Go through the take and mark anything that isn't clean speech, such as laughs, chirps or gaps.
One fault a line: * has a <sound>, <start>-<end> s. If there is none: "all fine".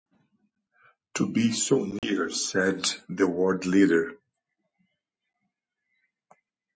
* has a dropout, 2.0-2.0 s